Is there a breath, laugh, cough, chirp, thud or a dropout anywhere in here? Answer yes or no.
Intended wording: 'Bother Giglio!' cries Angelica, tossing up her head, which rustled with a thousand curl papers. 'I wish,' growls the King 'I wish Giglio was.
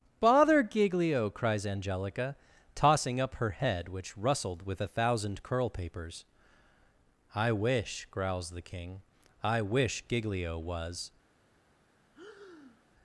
yes